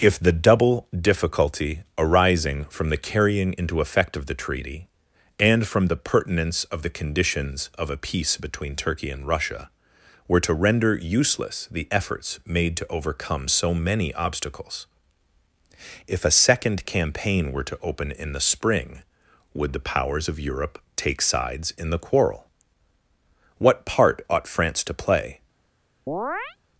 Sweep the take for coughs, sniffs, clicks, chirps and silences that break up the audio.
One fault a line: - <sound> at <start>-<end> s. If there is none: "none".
- chirp at 26.1-26.6 s